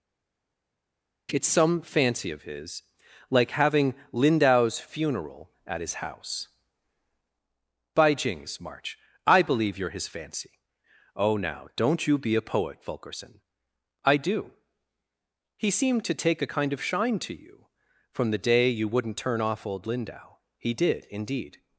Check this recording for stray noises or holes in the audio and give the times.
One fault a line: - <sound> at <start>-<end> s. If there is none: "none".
none